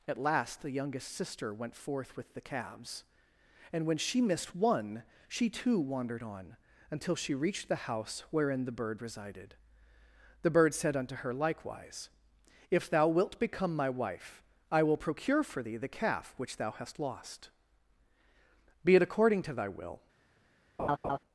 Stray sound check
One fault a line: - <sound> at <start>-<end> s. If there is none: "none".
- laugh at 20.8-21.2 s